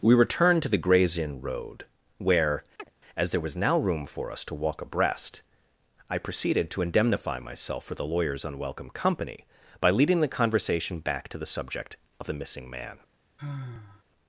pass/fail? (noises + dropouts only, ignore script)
fail